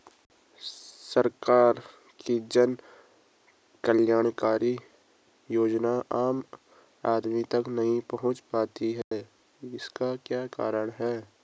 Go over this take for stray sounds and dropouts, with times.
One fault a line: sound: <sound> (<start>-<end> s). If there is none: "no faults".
sound: dropout (9.0-9.1 s)